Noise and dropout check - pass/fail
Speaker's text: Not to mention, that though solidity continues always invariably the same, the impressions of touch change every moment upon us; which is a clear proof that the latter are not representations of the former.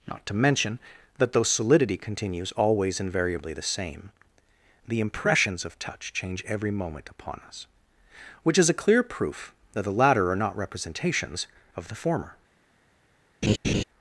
fail